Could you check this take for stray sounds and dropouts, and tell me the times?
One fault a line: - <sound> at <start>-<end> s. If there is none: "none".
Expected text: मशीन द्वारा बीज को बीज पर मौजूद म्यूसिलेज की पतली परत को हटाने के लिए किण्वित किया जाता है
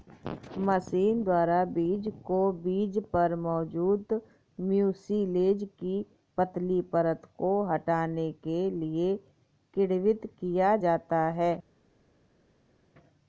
none